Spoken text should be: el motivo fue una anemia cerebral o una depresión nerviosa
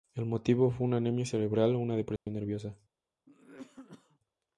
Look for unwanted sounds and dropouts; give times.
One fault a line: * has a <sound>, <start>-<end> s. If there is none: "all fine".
* has a dropout, 2.2-2.3 s
* has a cough, 3.3-4.2 s